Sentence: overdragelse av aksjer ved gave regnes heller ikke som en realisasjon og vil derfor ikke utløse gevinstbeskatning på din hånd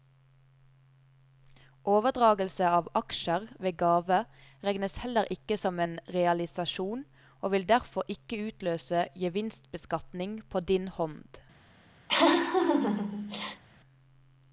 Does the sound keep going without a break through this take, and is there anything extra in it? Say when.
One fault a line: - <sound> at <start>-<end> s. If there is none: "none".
- laugh at 12.1-13.6 s